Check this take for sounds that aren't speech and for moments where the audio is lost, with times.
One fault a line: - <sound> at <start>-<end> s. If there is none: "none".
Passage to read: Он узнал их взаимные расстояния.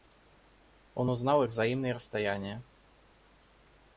none